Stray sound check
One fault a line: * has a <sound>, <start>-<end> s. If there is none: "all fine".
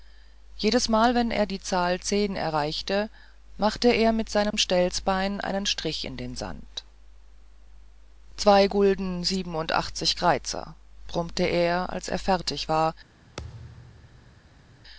* has a dropout, 4.5-4.5 s
* has a thud, 13.4-14.7 s